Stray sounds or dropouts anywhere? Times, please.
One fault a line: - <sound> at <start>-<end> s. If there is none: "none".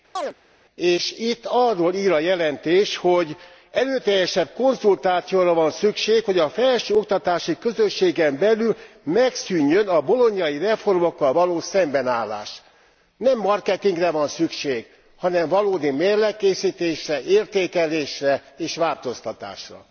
- chirp at 0.2-0.3 s